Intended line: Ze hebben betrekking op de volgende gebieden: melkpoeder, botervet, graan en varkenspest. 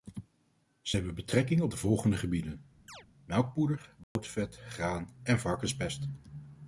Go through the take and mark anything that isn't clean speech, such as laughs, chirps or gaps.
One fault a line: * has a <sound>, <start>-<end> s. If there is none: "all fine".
* has a chirp, 2.9-3.1 s
* has a dropout, 4.0-4.2 s